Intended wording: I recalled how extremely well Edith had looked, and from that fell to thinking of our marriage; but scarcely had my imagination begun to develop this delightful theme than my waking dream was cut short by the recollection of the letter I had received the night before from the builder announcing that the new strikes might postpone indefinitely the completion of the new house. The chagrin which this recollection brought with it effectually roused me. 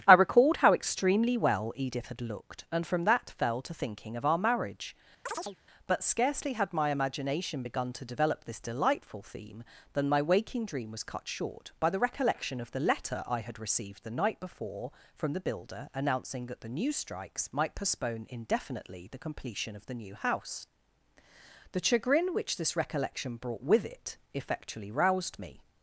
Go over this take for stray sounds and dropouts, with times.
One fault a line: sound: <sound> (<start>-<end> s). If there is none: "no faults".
sound: chirp (5.3-5.6 s)